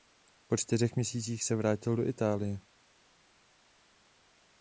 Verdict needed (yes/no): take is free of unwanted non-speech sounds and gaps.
yes